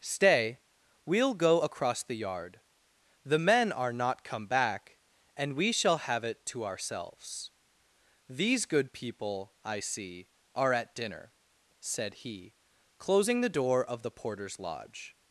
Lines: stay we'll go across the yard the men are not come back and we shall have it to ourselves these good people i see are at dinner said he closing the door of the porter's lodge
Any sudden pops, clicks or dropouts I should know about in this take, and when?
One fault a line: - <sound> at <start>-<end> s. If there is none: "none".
none